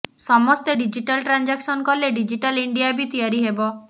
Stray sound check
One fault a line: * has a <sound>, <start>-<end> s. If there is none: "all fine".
all fine